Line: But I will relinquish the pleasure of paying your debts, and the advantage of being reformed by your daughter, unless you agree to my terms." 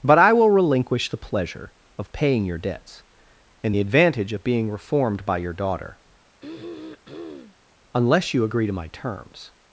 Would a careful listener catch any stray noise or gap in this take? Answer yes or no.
yes